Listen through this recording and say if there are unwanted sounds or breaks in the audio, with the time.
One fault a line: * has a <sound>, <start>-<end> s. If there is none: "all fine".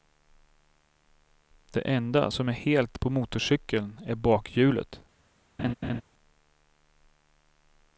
* has a laugh, 5.6-6.0 s